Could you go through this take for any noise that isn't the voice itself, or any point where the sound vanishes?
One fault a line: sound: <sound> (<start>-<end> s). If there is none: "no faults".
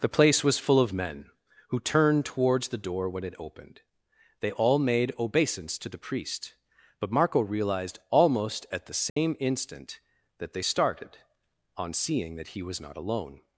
sound: dropout (9.1-9.2 s)